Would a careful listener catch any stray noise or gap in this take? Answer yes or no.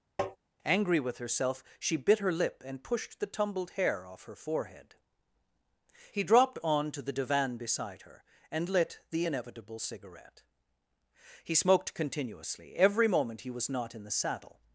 yes